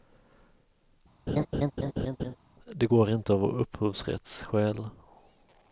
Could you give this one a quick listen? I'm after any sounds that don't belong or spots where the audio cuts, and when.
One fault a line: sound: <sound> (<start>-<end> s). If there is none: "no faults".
sound: laugh (1.3-2.4 s)